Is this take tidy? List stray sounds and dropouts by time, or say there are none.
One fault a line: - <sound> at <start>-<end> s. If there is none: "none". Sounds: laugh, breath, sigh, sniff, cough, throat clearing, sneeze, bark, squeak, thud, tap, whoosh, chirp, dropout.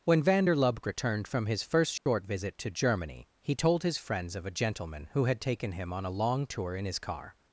- dropout at 2.0-2.1 s